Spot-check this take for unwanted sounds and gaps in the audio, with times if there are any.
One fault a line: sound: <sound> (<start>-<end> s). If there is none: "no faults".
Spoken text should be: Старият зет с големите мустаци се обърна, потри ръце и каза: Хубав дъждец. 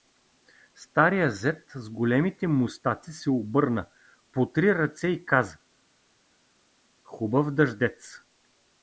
no faults